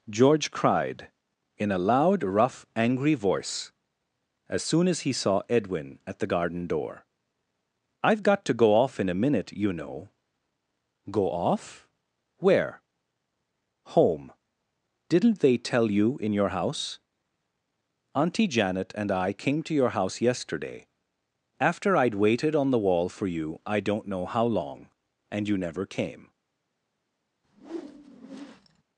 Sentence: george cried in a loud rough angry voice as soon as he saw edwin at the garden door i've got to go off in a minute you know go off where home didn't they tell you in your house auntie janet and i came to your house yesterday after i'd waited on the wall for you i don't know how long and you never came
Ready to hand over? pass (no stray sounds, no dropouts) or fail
fail